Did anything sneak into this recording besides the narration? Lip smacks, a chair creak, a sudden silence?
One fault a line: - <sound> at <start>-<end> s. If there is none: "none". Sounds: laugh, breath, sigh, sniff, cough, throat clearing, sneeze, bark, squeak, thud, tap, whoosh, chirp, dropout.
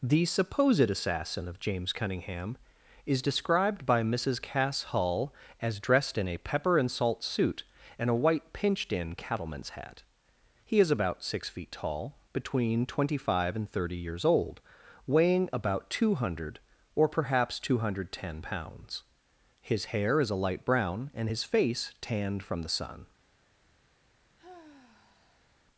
- sigh at 24.4-25.6 s